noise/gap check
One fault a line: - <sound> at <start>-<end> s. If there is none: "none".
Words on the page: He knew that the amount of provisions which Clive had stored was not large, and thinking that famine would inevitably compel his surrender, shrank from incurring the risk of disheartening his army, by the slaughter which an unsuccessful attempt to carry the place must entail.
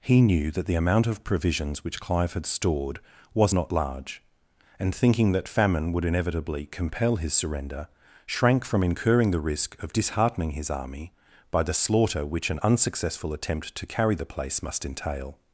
none